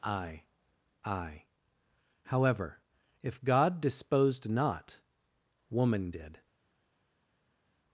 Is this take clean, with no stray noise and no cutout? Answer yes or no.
yes